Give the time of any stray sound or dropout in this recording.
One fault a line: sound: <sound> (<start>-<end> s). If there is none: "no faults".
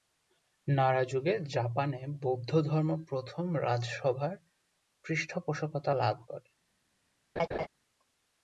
sound: laugh (7.4-7.7 s)